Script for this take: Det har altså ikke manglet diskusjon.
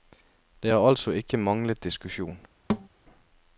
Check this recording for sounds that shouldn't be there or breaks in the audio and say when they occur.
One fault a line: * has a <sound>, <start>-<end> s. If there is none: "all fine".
* has a thud, 2.7-2.9 s